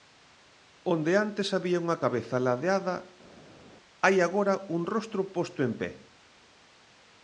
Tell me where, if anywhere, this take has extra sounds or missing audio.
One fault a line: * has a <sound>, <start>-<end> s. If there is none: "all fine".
all fine